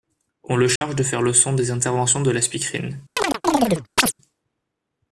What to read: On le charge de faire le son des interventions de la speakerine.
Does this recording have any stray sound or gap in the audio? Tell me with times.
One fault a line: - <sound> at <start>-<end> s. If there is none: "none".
- dropout at 0.8-0.8 s
- chirp at 3.2-4.1 s